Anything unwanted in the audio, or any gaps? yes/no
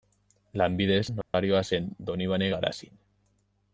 yes